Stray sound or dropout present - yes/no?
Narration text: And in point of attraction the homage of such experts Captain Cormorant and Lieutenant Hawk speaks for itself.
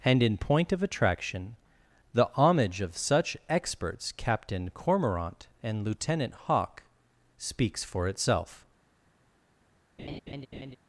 yes